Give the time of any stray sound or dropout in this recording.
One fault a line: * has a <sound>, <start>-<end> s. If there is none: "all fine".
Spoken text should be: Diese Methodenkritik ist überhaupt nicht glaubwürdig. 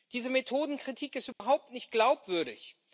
* has a dropout, 1.3-1.4 s